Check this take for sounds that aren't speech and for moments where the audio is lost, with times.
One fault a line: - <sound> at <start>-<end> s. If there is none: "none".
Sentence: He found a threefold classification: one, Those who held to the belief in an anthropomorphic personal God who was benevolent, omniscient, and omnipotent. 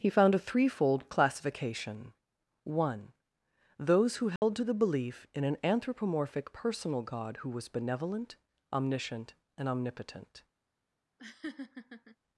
- dropout at 4.4-4.4 s
- laugh at 11.2-12.2 s